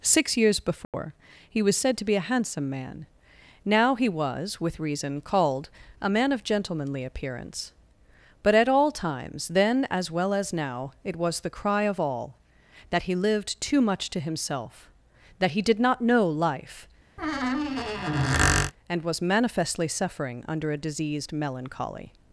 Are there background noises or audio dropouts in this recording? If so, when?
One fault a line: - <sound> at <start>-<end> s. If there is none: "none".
- dropout at 0.8-0.9 s
- squeak at 17.2-18.7 s